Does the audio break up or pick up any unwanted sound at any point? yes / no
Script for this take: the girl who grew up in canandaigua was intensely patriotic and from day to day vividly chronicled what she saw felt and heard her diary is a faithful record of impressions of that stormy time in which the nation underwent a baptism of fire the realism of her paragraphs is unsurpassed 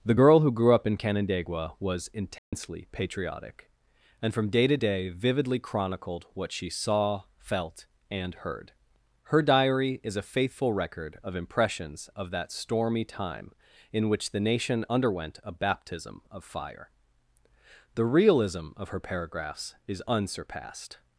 yes